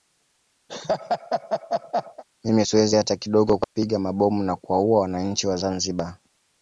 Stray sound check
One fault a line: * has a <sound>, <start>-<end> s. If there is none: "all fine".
* has a laugh, 0.7-2.2 s
* has a dropout, 3.6-3.7 s